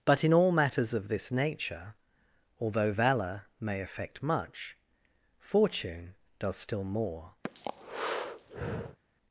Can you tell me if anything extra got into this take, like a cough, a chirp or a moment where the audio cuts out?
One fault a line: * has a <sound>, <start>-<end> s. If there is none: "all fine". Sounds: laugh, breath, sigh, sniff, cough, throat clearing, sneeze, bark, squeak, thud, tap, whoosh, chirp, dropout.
* has a breath, 7.4-9.0 s